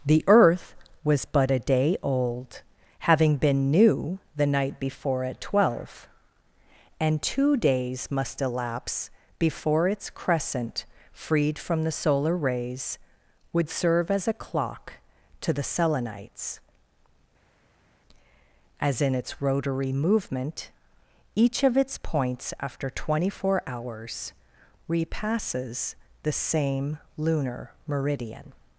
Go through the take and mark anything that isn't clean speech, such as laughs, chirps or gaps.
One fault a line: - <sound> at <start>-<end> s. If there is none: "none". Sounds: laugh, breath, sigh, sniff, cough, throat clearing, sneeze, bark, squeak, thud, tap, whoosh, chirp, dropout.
none